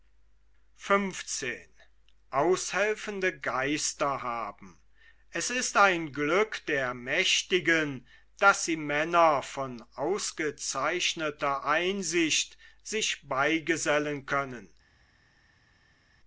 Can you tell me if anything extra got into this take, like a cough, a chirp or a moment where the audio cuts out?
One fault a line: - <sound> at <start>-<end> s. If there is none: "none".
none